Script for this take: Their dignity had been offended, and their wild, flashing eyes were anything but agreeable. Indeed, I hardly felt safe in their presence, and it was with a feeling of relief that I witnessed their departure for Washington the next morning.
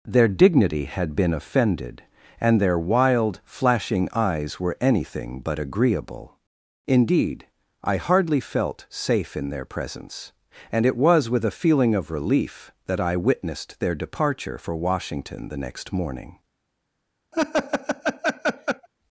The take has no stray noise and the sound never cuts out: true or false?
false